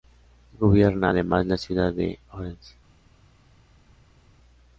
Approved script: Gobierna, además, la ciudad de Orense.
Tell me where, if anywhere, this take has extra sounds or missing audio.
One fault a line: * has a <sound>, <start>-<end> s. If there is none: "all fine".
all fine